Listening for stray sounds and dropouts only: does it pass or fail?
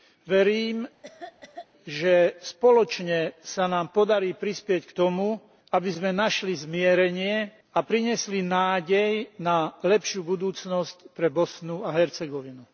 fail